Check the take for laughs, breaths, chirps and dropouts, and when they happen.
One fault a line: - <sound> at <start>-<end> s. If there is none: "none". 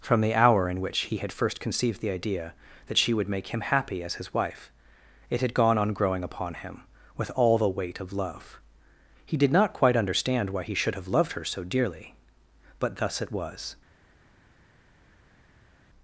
none